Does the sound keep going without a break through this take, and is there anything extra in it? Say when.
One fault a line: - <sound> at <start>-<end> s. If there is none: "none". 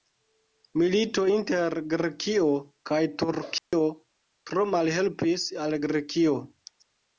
- dropout at 3.6-3.7 s